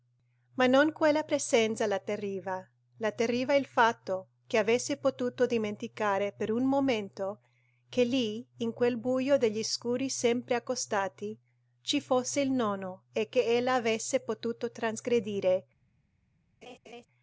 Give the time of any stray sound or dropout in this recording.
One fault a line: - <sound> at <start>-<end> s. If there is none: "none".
- laugh at 16.6-17.1 s